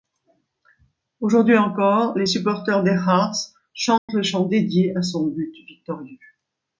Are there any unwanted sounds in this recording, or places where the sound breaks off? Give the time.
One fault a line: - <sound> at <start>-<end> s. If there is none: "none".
- dropout at 4.0-4.1 s